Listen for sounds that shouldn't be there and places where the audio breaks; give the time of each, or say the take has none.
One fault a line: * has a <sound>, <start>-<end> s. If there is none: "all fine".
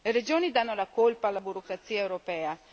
all fine